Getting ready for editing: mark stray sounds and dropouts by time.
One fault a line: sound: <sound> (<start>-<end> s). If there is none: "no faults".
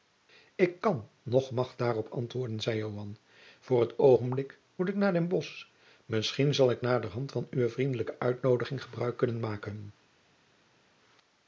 no faults